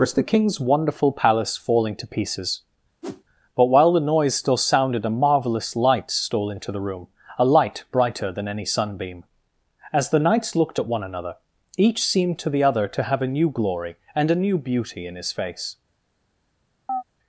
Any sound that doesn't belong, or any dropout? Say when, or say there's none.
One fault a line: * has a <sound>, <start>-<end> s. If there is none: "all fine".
* has a whoosh, 3.0-3.2 s
* has a chirp, 16.9-17.0 s